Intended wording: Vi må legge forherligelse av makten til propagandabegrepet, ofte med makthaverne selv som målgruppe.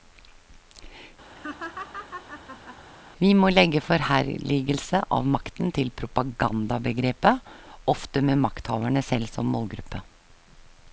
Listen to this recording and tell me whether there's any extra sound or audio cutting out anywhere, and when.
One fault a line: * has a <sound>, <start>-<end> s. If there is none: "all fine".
* has a laugh, 1.4-2.8 s